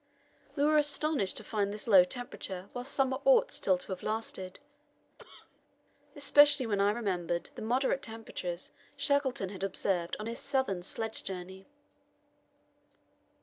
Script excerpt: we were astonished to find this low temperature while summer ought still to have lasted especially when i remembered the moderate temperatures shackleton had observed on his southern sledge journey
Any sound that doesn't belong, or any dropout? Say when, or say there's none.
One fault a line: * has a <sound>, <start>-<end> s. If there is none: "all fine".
* has a cough, 5.2-5.6 s